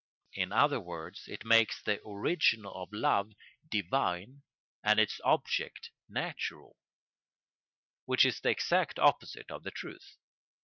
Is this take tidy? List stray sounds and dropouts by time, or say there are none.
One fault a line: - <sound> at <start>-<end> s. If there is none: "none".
none